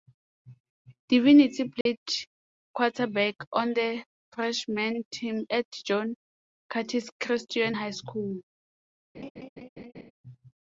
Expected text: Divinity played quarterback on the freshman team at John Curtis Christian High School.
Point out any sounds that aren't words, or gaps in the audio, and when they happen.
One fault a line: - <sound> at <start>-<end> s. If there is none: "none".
- dropout at 1.8-1.9 s
- laugh at 9.1-10.1 s